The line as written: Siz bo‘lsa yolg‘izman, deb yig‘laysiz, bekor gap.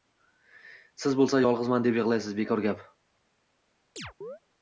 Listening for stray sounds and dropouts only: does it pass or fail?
fail